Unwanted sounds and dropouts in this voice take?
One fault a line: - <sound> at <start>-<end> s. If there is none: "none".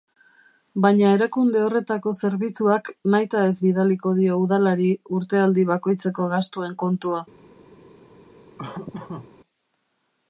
- laugh at 8.6-9.3 s